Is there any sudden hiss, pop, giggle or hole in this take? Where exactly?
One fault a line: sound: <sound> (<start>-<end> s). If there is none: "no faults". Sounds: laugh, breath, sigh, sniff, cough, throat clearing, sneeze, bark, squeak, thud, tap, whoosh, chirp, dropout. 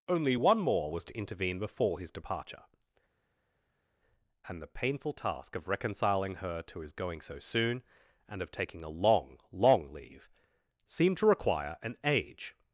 no faults